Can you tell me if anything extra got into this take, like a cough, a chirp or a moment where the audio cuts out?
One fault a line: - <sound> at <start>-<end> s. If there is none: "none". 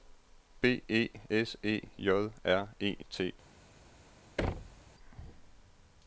- thud at 4.4-4.8 s